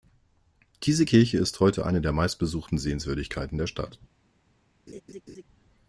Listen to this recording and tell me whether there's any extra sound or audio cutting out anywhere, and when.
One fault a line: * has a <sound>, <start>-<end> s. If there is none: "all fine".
* has a laugh, 4.9-5.4 s